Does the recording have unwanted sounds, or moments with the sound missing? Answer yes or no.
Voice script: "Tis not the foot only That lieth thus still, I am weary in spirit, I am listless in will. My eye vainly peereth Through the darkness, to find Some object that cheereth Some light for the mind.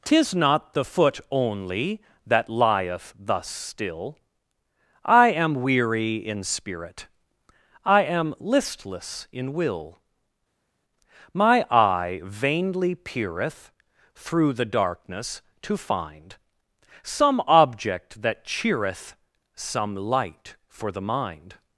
no